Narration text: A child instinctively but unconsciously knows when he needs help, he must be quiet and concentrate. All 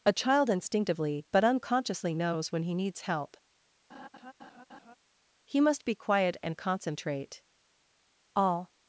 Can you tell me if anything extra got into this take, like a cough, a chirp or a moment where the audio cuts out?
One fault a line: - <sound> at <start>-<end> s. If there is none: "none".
- laugh at 3.9-5.0 s